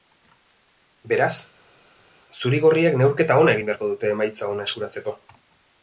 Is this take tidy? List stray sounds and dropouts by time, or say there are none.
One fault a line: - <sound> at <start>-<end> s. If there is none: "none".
none